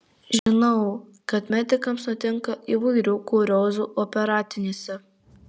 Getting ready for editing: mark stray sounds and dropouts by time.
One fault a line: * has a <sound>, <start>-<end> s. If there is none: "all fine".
* has a dropout, 0.4-0.5 s